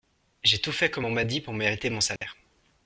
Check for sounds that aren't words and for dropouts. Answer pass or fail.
fail